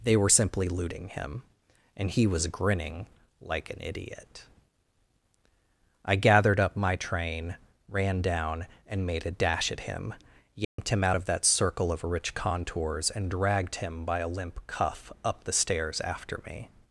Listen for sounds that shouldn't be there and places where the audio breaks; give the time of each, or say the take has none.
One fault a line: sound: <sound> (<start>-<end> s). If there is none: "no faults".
sound: dropout (10.6-10.8 s)